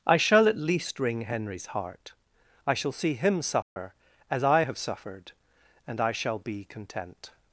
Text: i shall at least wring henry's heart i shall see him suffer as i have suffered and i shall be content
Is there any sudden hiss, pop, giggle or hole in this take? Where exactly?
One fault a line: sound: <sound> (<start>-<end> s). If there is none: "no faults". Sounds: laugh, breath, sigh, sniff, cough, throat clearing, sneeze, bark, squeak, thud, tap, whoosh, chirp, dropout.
sound: dropout (3.6-3.8 s)